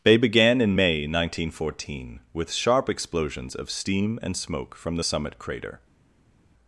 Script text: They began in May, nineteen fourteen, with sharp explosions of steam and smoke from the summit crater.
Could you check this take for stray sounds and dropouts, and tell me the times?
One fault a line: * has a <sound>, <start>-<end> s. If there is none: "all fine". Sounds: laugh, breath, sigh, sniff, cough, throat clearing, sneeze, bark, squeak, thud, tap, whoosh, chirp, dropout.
all fine